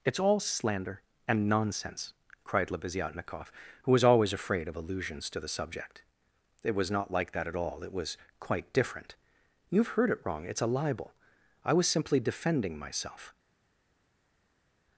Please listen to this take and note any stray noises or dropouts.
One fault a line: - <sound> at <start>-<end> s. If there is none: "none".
none